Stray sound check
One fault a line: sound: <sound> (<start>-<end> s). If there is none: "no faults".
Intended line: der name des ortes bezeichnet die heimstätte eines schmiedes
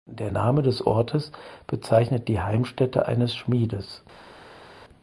no faults